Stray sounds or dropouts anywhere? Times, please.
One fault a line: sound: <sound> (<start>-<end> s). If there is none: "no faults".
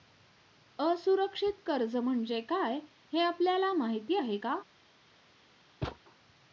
sound: thud (5.8-6.0 s)